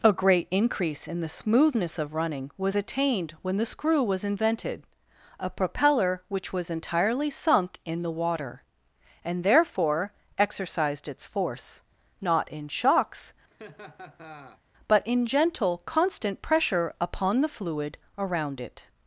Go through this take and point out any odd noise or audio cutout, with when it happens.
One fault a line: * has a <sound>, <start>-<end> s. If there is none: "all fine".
* has a laugh, 13.5-14.6 s